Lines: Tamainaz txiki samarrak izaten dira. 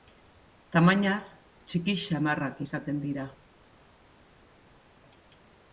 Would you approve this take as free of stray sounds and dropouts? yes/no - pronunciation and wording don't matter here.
yes